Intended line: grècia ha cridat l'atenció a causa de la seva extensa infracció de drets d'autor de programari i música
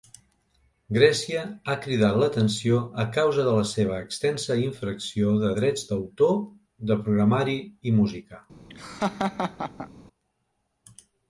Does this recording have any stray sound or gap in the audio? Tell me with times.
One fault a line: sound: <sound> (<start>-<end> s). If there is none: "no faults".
sound: laugh (8.7-9.9 s)